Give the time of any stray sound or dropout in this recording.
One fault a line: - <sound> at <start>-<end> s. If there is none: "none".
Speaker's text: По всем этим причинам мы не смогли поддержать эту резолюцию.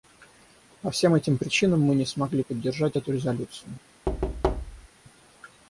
- thud at 4.1-4.9 s